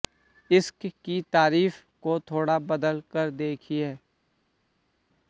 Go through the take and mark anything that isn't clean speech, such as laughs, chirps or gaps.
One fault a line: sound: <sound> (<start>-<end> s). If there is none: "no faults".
no faults